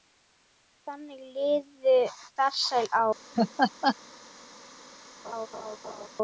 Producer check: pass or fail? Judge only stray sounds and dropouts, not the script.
fail